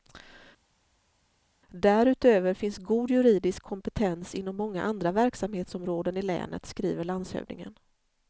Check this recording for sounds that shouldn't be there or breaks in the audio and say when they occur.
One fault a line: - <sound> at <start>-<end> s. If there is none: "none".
none